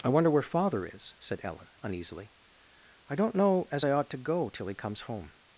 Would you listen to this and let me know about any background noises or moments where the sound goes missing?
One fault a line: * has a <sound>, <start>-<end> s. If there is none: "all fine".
all fine